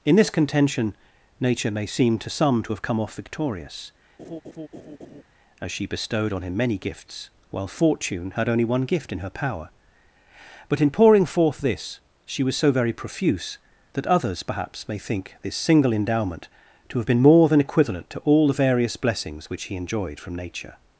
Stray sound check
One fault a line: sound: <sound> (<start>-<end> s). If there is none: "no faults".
sound: laugh (4.2-5.2 s)